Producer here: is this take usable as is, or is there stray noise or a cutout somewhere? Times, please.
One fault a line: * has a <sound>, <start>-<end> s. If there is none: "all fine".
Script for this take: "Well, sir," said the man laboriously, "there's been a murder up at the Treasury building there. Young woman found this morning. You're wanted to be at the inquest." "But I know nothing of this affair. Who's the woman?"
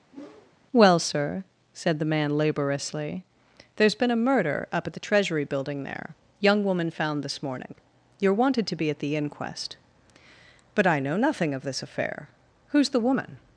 * has a whoosh, 0.1-0.5 s